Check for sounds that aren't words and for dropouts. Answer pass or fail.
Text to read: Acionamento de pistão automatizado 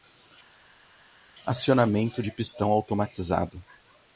pass